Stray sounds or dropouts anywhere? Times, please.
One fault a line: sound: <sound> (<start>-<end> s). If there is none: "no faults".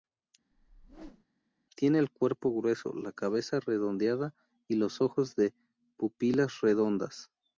sound: whoosh (0.5-1.3 s)